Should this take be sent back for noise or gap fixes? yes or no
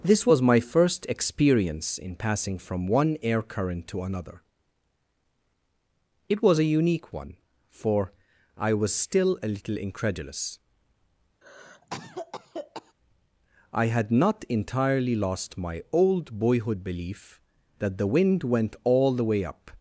yes